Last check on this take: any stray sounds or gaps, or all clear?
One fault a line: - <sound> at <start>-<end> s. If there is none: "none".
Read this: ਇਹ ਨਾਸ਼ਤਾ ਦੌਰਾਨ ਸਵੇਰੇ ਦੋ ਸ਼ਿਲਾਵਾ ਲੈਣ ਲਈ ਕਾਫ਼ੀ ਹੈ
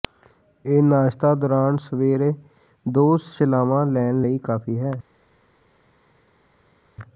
none